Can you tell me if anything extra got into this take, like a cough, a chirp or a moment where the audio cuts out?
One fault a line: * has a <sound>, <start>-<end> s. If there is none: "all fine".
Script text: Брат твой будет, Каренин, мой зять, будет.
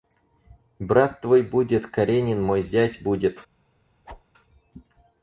* has a whoosh, 4.1-4.2 s